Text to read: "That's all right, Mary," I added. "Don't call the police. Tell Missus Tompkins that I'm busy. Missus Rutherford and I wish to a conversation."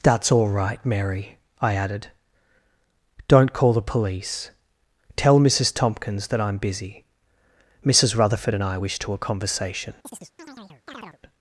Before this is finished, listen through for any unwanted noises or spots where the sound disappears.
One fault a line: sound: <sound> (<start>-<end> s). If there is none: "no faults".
sound: chirp (10.0-11.2 s)